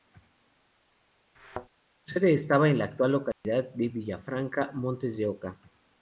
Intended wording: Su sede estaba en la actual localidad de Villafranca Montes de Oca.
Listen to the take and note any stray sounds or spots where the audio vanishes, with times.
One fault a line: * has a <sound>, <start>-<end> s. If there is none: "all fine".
* has a thud, 1.3-1.7 s
* has a dropout, 3.3-3.4 s